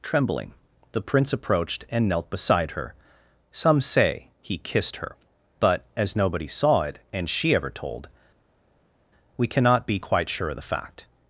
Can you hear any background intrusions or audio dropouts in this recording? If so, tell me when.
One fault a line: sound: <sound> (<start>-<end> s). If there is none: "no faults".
no faults